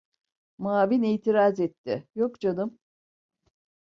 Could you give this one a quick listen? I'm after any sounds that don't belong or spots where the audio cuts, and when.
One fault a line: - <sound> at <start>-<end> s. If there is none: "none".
none